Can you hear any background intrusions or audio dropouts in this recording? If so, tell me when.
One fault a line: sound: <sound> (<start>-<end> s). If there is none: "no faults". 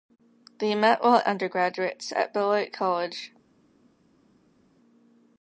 no faults